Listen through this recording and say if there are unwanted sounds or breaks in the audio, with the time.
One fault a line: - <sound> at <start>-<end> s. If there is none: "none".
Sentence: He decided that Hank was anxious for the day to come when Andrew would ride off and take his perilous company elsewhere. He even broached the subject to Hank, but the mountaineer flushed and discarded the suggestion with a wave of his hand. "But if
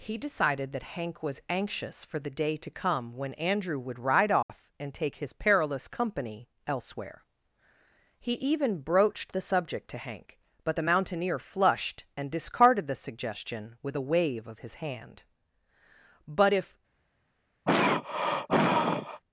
- dropout at 4.4-4.5 s
- throat clearing at 17.7-19.2 s